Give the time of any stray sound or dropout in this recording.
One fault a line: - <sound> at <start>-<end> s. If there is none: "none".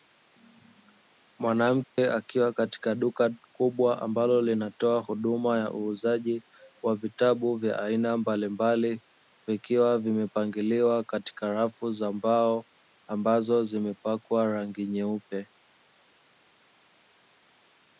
- dropout at 1.8-2.0 s